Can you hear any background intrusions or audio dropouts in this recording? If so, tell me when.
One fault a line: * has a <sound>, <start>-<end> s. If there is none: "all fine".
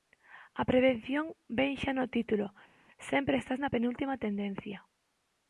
all fine